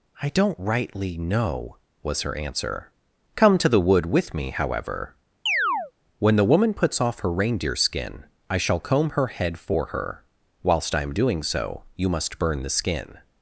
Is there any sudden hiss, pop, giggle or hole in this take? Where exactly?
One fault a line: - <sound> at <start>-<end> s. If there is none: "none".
- chirp at 5.5-5.9 s